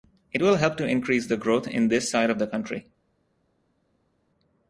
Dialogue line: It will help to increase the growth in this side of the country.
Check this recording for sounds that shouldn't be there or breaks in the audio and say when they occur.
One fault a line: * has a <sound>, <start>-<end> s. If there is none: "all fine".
all fine